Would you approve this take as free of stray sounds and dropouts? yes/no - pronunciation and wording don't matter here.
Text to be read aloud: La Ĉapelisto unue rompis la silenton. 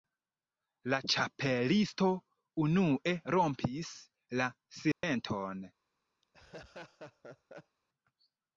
no